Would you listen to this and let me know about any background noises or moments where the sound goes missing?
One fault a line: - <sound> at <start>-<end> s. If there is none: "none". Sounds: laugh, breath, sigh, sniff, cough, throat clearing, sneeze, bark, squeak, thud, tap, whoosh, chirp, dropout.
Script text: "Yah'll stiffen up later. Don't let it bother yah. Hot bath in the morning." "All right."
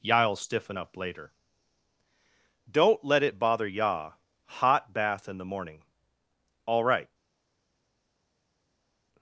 none